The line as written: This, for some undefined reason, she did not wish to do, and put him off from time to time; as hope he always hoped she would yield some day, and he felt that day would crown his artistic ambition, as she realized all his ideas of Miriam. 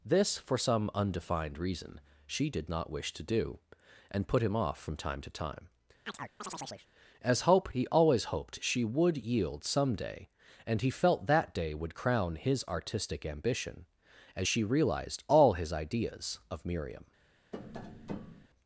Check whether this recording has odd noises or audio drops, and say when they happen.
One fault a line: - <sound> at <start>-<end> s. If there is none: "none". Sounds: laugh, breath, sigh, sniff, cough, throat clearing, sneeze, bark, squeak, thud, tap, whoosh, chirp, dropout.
- chirp at 6.1-6.9 s
- tap at 17.5-18.5 s